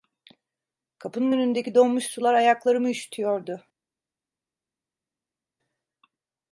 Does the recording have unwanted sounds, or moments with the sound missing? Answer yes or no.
no